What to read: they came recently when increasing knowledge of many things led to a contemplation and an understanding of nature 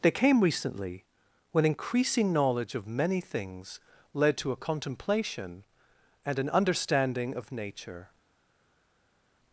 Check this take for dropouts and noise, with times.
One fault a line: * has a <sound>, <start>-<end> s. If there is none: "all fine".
all fine